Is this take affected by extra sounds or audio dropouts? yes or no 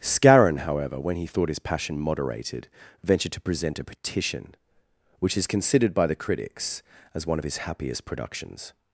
no